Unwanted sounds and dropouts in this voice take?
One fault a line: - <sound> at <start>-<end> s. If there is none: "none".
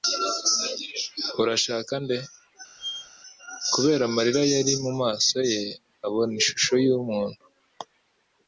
- squeak at 2.8-3.1 s